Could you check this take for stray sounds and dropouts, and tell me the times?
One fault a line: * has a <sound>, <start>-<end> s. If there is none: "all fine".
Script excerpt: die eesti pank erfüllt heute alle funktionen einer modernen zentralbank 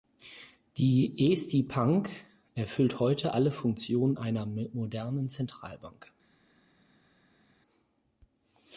all fine